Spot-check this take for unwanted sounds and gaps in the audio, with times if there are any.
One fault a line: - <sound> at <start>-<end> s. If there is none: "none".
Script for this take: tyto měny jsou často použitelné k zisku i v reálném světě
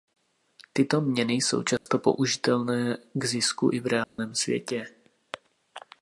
- dropout at 1.8-1.9 s
- dropout at 4.0-4.2 s